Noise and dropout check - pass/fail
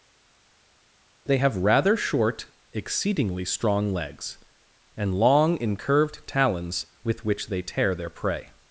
pass